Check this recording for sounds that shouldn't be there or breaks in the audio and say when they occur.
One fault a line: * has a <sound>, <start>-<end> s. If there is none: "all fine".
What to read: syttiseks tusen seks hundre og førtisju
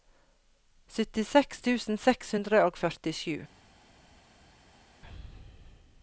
all fine